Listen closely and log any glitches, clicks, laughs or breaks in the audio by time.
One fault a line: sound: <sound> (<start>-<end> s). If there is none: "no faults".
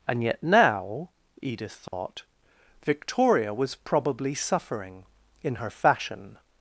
sound: dropout (1.9-1.9 s)